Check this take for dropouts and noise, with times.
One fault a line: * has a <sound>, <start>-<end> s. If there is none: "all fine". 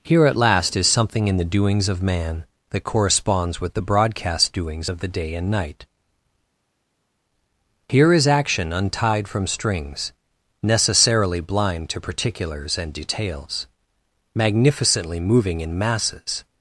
all fine